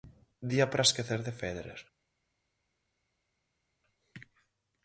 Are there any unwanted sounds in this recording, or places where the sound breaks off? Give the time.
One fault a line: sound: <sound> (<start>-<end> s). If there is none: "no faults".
no faults